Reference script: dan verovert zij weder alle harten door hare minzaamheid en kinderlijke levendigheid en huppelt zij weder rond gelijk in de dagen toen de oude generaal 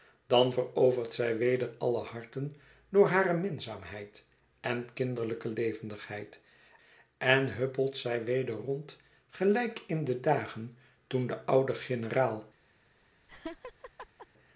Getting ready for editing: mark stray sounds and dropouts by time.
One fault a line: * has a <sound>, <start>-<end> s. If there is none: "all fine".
* has a laugh, 13.3-14.3 s